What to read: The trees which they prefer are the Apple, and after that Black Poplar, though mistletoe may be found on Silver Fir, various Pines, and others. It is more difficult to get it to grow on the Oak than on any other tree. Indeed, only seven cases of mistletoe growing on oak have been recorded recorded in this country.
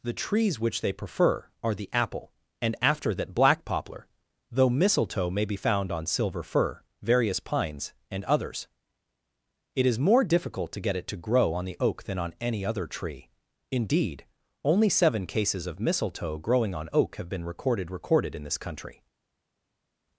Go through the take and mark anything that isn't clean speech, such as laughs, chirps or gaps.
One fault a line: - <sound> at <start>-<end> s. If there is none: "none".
none